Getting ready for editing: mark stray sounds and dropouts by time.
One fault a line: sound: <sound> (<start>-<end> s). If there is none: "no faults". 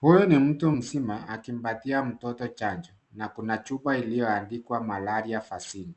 no faults